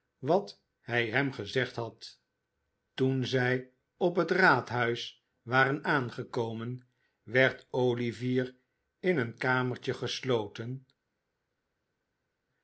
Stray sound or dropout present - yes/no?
no